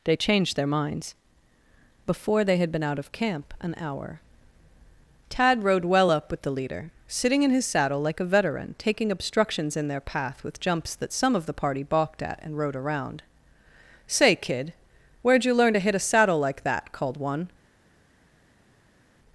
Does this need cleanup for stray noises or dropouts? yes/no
no